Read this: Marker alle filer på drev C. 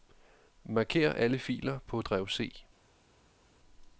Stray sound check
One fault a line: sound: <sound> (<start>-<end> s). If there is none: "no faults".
no faults